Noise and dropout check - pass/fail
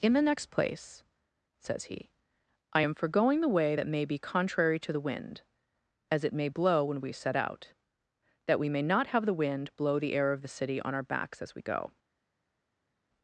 pass